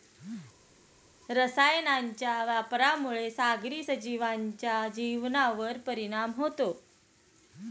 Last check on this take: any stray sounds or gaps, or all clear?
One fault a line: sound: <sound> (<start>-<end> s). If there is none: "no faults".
no faults